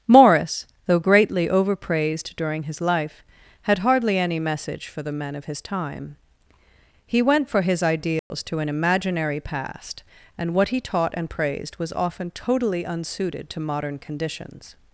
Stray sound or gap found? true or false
true